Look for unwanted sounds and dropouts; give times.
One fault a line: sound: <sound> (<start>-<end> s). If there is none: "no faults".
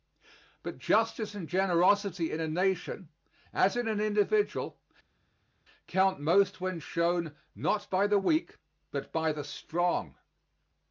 no faults